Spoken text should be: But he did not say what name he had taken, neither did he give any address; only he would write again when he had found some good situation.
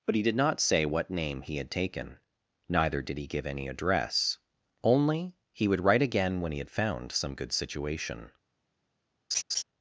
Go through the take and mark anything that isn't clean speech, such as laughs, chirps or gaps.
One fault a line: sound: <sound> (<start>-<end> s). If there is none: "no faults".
sound: laugh (9.3-9.6 s)